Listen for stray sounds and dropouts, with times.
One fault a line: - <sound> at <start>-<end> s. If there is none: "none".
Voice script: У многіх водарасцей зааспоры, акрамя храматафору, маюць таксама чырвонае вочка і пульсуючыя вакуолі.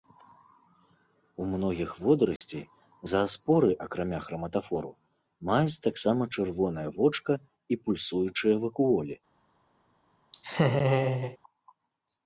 - dropout at 2.4-2.4 s
- laugh at 10.3-11.4 s